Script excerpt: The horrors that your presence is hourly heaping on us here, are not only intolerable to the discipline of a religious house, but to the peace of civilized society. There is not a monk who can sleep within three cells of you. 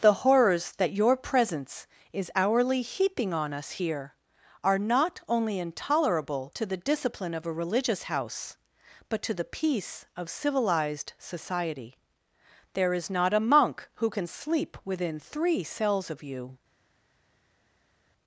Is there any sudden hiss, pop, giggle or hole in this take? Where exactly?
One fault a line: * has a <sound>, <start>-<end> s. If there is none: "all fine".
all fine